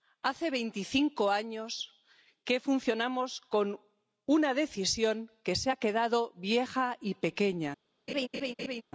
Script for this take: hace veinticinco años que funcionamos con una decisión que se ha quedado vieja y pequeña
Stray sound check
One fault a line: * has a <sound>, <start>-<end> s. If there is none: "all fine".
* has a laugh, 8.1-8.8 s